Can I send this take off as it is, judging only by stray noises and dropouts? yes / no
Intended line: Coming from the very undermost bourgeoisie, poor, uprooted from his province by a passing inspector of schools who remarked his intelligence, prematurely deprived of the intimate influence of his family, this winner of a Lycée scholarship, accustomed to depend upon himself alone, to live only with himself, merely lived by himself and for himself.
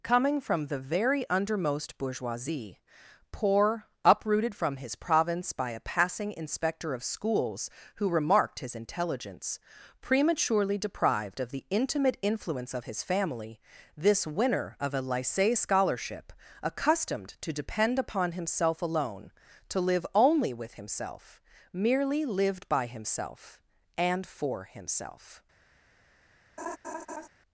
no